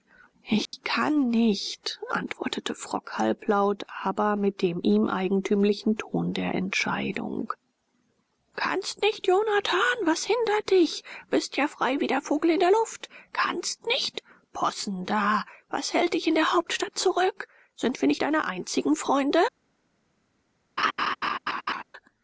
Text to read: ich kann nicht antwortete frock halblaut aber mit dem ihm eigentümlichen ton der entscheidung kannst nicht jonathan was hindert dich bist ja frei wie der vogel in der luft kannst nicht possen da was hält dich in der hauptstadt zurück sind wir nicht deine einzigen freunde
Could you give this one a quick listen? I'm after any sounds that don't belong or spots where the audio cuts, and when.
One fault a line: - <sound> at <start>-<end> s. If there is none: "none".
- dropout at 0.7-0.7 s
- laugh at 20.8-21.8 s